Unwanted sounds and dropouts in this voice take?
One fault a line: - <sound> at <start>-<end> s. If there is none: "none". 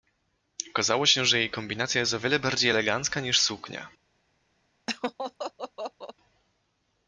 - laugh at 4.9-6.1 s